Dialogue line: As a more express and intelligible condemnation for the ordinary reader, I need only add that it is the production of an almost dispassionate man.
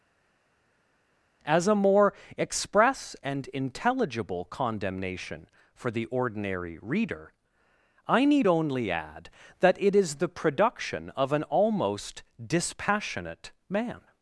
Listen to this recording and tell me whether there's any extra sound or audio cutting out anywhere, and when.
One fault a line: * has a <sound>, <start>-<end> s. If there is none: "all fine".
all fine